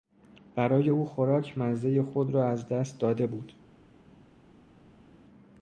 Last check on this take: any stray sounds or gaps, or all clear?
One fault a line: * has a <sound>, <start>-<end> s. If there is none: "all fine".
all fine